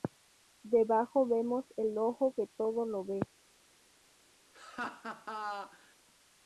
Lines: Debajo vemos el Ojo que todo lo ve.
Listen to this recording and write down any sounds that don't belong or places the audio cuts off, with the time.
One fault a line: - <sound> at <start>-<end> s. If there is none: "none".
- laugh at 4.5-6.0 s